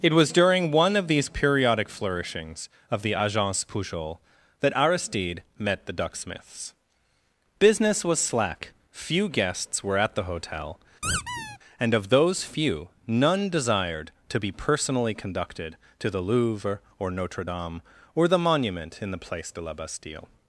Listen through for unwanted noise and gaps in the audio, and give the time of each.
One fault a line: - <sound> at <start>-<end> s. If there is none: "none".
- squeak at 11.0-11.6 s